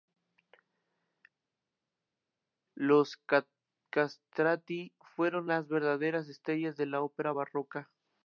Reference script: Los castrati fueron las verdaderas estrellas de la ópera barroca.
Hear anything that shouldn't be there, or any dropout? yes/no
no